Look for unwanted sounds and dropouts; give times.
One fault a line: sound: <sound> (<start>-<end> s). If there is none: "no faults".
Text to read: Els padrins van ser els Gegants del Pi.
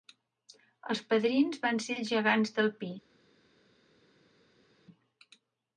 no faults